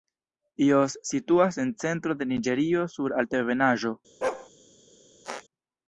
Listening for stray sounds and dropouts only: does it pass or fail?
fail